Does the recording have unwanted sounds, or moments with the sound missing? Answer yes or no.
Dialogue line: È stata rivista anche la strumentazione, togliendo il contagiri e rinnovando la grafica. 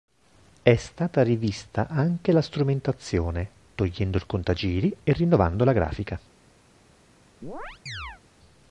yes